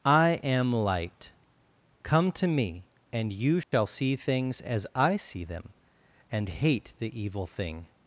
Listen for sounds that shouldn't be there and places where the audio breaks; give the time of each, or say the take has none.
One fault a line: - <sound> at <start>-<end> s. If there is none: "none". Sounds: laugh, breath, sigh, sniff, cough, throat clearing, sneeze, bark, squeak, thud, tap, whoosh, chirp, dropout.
- dropout at 3.6-3.7 s